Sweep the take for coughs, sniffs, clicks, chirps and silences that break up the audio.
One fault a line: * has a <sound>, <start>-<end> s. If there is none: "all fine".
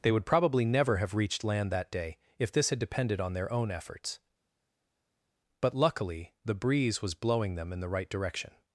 all fine